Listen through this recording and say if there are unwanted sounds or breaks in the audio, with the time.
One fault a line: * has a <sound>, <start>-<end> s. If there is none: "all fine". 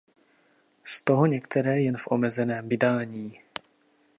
all fine